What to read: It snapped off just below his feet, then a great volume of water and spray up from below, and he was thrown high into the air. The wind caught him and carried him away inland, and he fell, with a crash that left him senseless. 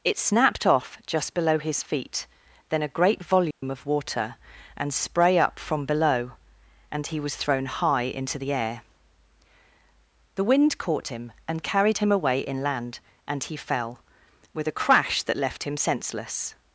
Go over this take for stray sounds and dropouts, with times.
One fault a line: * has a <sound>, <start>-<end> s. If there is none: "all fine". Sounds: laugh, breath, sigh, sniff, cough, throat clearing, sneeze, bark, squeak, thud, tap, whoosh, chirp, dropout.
* has a dropout, 3.5-3.6 s